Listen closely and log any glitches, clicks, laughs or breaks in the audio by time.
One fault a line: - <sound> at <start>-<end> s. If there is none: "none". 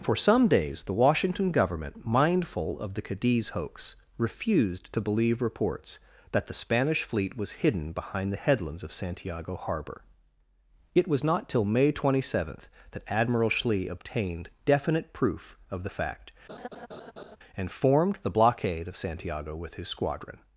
- laugh at 16.5-17.4 s